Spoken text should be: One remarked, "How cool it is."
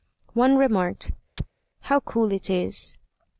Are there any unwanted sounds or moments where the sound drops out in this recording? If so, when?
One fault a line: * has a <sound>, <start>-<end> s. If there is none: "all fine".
* has a chirp, 1.4-1.5 s